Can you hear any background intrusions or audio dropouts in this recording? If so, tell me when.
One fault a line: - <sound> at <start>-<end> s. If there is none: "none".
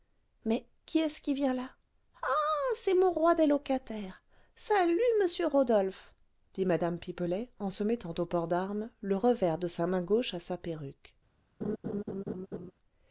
- laugh at 11.6-12.7 s